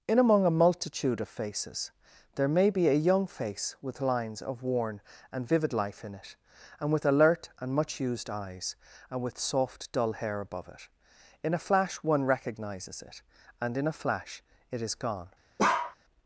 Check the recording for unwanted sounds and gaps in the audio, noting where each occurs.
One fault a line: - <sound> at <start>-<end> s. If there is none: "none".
- bark at 15.6-16.0 s